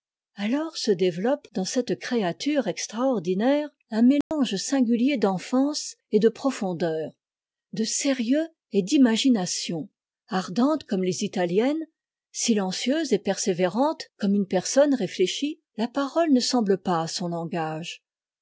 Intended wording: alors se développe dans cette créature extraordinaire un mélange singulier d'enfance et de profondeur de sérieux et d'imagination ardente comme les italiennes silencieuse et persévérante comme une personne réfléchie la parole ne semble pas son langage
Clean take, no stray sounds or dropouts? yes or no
no